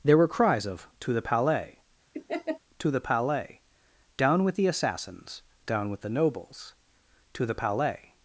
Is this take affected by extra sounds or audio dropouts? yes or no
yes